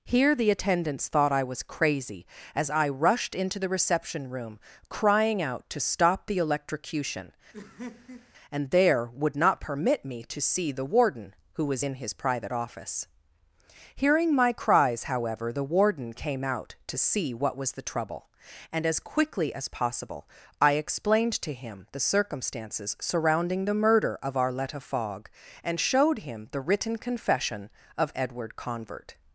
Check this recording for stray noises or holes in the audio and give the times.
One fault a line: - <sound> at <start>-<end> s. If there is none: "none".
- laugh at 7.5-8.3 s